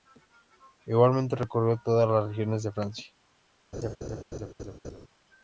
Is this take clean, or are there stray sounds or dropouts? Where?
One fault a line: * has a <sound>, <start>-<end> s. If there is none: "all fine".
* has a laugh, 3.7-5.1 s